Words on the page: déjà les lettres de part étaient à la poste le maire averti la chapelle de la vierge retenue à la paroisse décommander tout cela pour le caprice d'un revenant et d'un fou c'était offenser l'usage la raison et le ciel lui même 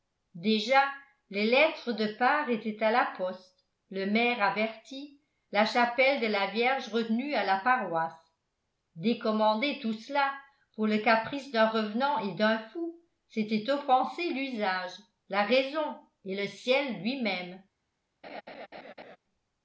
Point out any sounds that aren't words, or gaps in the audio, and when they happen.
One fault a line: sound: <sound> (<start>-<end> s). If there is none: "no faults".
sound: laugh (18.2-19.2 s)